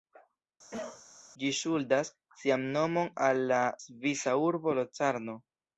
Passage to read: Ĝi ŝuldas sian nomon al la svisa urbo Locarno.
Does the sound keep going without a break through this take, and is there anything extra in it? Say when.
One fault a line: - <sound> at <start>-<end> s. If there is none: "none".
- cough at 0.7-1.0 s